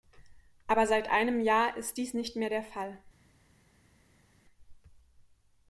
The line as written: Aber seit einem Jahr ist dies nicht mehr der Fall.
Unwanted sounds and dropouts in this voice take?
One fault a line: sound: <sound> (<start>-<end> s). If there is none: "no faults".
no faults